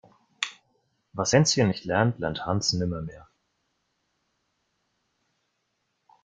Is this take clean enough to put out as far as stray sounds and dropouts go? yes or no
yes